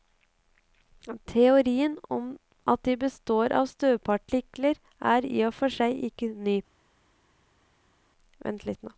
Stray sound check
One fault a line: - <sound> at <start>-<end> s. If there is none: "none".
none